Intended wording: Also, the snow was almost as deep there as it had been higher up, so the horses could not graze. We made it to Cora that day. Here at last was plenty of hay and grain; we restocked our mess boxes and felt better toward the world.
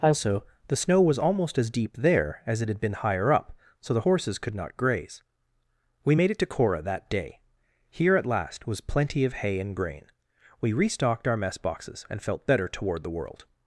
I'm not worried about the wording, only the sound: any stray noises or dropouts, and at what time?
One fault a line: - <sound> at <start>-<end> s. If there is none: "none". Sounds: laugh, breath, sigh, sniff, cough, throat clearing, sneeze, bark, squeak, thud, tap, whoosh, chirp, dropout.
none